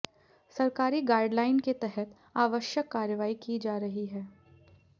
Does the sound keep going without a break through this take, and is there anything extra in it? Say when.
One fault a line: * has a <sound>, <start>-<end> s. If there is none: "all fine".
all fine